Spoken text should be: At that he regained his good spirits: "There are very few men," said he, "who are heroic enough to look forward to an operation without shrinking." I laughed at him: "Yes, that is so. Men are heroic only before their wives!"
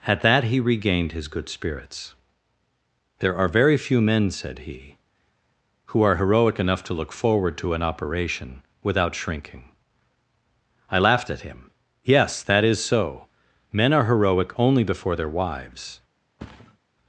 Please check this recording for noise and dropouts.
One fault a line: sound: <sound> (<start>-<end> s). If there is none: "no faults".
sound: thud (16.4-16.8 s)